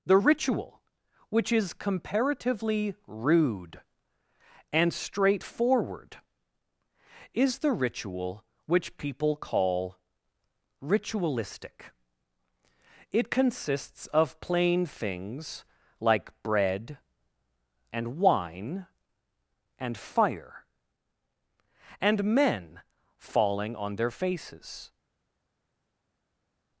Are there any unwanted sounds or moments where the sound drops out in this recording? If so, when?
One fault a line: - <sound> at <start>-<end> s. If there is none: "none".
none